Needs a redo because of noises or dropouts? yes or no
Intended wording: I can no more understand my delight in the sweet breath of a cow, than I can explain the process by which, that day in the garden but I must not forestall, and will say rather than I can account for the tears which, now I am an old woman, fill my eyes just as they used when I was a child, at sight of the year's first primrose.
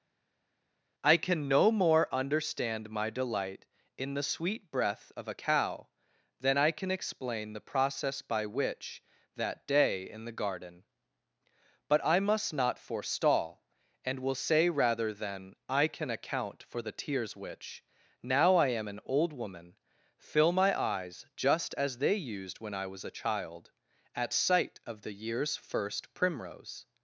no